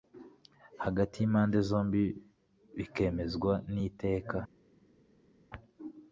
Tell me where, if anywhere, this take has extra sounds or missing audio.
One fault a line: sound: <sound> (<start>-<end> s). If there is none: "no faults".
no faults